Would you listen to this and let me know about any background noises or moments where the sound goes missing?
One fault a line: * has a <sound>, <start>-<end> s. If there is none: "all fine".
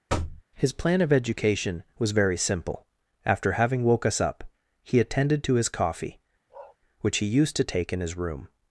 * has a thud, 0.1-0.4 s
* has a bark, 6.5-6.8 s